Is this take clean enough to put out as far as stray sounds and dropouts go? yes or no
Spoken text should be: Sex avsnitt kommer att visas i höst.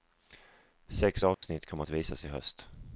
no